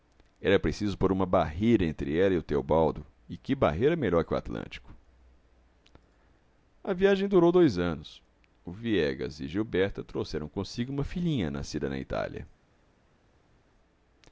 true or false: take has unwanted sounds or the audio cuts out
false